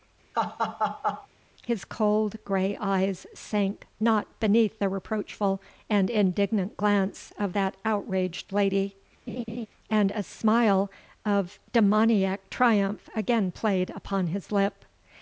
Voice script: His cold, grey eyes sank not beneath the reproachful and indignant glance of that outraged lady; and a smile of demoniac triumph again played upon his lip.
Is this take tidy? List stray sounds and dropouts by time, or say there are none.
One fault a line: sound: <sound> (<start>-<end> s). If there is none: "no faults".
sound: laugh (0.3-1.3 s)
sound: laugh (9.3-9.7 s)